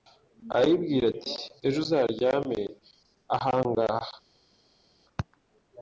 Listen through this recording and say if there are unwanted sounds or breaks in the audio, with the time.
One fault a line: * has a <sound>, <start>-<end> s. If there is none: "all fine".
all fine